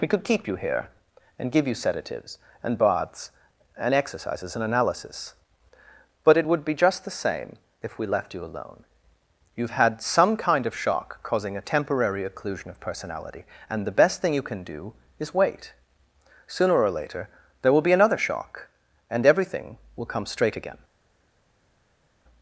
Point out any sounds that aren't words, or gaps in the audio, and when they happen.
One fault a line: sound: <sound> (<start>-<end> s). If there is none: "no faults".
no faults